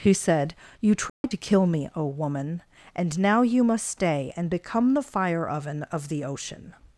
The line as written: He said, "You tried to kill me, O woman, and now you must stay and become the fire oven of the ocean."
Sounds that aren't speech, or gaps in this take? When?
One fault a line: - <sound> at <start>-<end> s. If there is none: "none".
- dropout at 1.1-1.2 s